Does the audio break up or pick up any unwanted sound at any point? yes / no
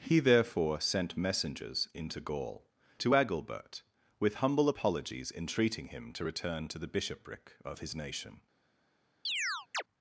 yes